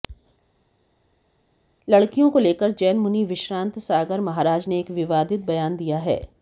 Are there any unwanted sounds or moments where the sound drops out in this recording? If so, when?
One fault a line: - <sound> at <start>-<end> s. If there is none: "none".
none